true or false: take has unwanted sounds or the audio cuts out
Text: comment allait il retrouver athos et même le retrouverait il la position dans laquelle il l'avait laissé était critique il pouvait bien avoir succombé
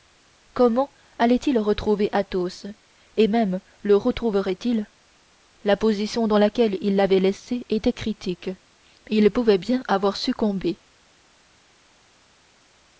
false